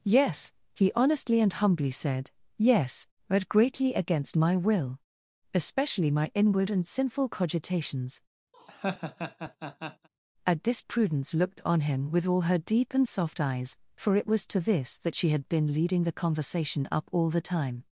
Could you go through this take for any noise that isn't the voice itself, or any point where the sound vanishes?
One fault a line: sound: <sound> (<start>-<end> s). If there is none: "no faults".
sound: laugh (8.5-10.1 s)